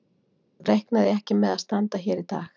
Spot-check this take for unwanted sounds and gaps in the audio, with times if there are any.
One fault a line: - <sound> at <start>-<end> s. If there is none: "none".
none